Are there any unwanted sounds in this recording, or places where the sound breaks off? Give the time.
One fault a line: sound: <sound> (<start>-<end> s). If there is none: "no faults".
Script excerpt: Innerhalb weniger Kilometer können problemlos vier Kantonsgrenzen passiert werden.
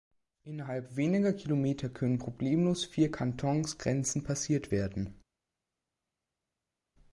no faults